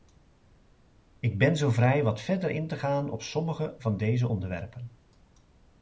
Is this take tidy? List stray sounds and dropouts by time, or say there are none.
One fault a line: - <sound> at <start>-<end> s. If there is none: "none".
none